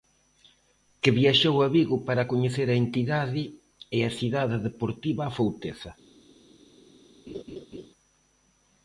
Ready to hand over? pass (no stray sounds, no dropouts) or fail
fail